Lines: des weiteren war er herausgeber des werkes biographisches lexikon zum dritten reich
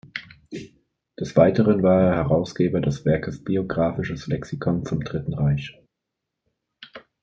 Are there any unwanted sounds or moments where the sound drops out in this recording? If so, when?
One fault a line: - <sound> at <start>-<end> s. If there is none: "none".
none